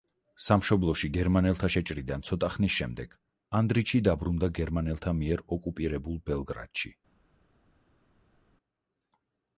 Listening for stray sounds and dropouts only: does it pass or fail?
pass